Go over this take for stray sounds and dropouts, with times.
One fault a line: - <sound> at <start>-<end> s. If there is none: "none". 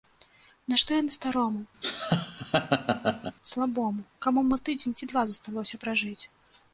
- laugh at 1.8-3.4 s